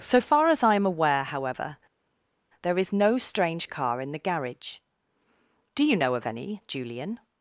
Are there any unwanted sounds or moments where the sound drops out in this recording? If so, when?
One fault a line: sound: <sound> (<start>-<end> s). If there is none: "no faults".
no faults